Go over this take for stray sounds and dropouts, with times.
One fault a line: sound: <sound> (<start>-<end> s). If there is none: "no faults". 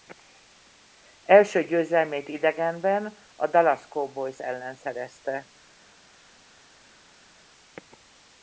no faults